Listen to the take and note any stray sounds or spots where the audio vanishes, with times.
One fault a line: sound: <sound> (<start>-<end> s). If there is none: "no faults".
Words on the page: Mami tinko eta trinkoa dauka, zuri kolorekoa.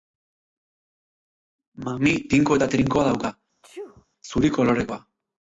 sound: sneeze (3.6-4.1 s)